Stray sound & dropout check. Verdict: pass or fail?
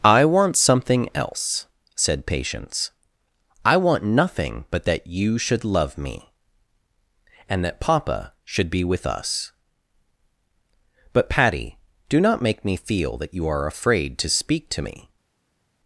pass